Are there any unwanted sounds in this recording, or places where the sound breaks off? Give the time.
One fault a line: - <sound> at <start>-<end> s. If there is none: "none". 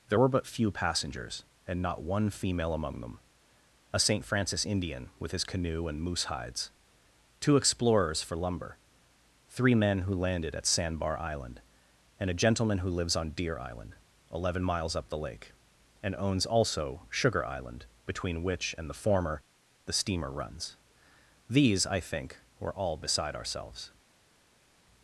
none